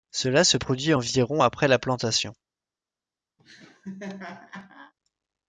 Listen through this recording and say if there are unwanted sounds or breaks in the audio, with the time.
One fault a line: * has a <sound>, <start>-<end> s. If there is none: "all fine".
* has a laugh, 3.4-4.9 s